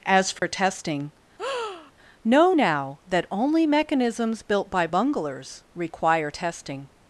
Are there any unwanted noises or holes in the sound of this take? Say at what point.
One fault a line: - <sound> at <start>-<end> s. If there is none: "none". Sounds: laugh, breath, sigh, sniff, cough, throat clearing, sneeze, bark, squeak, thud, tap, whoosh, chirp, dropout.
- dropout at 0.4-0.4 s
- breath at 1.4-1.9 s